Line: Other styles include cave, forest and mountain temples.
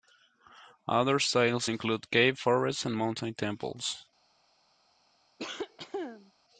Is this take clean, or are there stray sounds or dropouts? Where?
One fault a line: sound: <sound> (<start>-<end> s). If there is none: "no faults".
sound: cough (5.4-6.3 s)